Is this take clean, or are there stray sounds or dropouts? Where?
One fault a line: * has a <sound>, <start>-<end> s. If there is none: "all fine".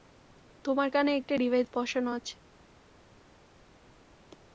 all fine